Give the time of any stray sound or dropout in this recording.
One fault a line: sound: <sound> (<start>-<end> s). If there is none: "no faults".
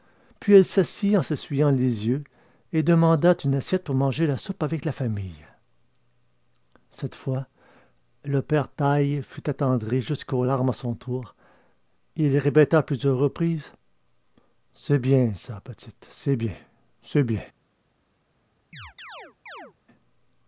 sound: chirp (18.7-19.7 s)